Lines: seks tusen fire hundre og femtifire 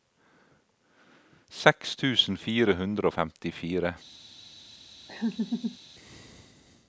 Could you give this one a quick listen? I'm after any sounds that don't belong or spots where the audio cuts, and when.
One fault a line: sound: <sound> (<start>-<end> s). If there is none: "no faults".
sound: laugh (5.1-5.8 s)